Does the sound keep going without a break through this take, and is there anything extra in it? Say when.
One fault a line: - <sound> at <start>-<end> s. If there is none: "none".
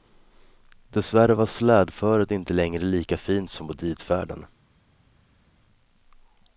none